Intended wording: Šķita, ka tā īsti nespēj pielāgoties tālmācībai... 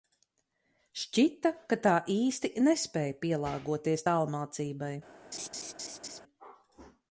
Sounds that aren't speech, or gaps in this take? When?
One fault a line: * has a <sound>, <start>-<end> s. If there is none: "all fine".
* has a laugh, 5.3-6.2 s